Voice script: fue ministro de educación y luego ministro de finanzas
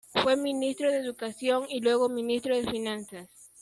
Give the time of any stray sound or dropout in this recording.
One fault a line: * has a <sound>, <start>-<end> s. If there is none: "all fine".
all fine